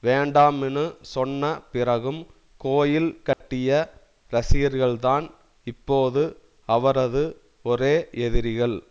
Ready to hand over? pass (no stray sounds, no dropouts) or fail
fail